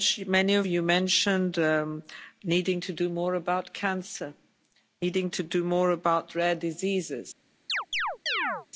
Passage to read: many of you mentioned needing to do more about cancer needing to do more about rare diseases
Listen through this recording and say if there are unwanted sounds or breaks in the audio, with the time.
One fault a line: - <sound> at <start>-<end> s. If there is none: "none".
- chirp at 7.7-8.7 s